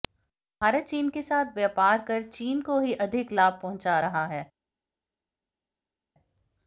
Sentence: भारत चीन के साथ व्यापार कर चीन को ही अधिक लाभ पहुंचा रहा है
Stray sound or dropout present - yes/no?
no